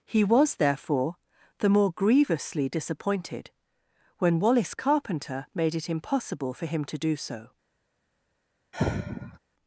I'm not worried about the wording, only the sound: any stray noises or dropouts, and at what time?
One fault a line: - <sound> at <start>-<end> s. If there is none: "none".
- sigh at 8.7-9.4 s